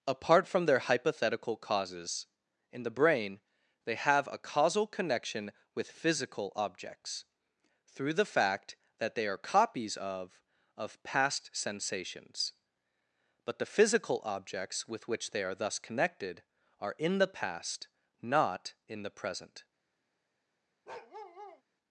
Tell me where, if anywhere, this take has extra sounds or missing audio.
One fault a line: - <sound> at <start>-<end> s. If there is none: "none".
- bark at 20.9-21.6 s